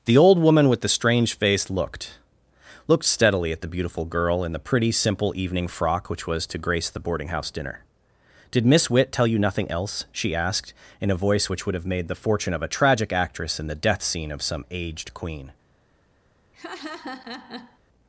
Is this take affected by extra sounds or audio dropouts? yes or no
yes